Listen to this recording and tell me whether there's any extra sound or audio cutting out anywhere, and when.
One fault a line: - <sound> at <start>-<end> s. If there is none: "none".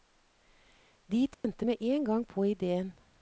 - dropout at 1.3-1.4 s